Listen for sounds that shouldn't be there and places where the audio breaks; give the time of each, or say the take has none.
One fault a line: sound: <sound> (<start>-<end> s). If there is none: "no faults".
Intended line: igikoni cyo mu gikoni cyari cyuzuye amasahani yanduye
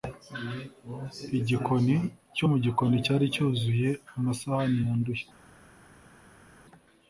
no faults